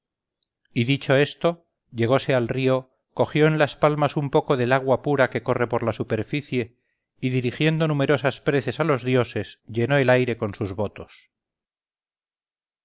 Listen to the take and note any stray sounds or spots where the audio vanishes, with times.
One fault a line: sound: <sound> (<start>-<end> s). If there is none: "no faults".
no faults